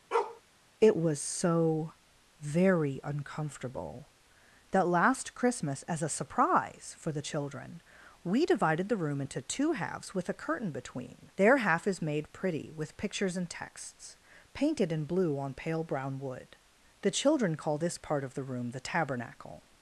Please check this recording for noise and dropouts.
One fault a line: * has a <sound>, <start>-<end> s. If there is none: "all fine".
* has a bark, 0.1-0.4 s